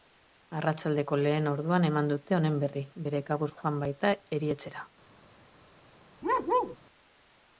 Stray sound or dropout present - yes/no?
yes